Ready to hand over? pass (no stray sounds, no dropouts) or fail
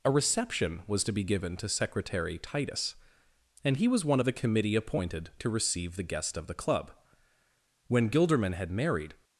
pass